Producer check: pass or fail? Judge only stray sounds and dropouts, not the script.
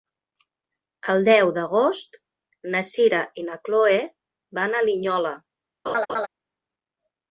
fail